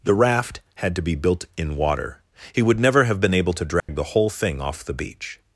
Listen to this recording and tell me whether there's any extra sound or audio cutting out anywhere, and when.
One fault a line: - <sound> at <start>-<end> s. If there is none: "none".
- dropout at 3.8-3.9 s